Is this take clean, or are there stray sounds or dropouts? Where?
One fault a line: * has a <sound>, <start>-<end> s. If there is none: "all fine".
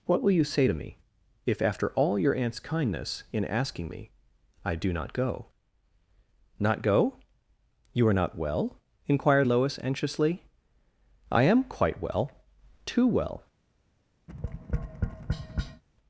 * has a tap, 14.3-15.8 s